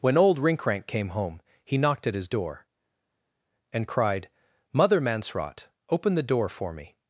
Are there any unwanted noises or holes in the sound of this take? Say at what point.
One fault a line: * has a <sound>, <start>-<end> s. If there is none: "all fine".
all fine